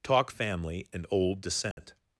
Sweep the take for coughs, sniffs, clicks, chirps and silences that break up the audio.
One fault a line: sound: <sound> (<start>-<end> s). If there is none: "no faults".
sound: dropout (1.7-1.8 s)